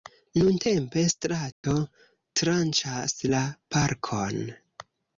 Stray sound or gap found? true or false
true